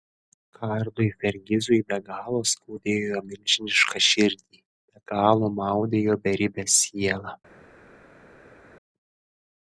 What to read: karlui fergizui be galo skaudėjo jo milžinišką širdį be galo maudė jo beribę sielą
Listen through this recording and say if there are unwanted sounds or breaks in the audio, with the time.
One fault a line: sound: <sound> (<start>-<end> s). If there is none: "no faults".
no faults